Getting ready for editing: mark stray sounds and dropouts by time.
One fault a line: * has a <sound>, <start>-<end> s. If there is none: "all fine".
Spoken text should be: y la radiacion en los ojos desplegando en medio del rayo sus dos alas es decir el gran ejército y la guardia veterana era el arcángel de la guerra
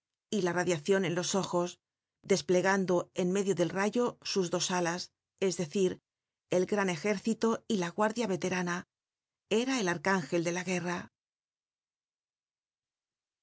all fine